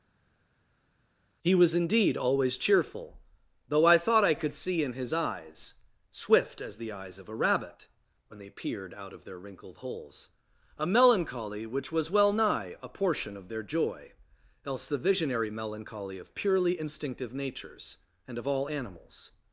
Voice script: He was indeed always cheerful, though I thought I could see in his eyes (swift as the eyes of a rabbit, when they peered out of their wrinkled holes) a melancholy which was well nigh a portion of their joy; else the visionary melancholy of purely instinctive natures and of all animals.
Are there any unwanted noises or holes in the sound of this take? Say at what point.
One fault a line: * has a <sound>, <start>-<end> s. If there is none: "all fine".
all fine